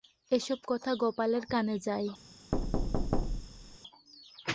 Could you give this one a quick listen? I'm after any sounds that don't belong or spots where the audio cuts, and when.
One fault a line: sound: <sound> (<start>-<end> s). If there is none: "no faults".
sound: thud (2.5-3.8 s)